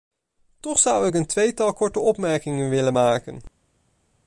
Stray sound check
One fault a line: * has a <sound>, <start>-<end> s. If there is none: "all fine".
all fine